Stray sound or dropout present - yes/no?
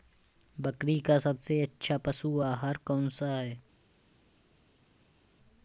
no